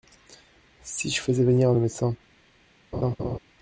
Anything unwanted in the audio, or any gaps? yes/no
yes